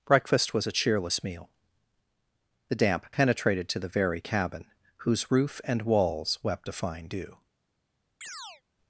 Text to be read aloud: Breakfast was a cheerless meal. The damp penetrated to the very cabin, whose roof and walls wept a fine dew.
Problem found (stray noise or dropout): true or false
true